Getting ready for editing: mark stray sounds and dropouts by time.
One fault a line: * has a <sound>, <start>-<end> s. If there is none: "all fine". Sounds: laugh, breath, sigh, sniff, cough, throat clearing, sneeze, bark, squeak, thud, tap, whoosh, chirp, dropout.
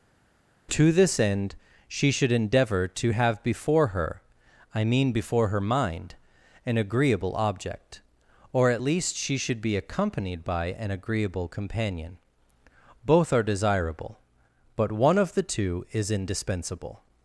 all fine